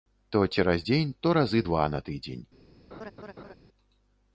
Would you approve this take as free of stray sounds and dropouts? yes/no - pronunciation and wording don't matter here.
no